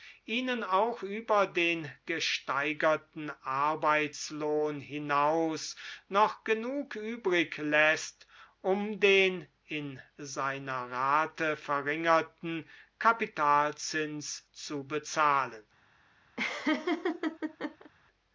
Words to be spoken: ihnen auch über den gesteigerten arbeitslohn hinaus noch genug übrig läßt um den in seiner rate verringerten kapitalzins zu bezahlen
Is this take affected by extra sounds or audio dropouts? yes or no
yes